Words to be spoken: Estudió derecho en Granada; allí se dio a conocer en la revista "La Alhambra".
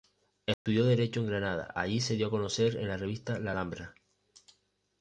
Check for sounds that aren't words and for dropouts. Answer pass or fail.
fail